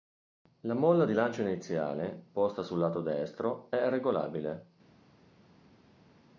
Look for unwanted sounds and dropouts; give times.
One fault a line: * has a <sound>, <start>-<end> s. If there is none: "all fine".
all fine